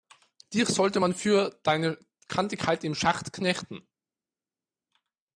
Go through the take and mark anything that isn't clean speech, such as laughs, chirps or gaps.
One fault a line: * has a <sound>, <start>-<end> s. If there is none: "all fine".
all fine